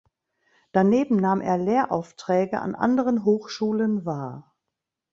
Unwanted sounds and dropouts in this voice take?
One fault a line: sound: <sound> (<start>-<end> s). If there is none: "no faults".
no faults